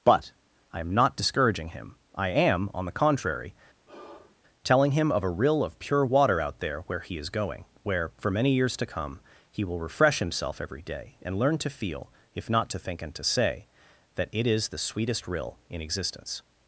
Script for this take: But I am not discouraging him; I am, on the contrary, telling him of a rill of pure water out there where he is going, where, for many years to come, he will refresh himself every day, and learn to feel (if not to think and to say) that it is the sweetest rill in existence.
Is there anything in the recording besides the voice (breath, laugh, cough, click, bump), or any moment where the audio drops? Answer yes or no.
yes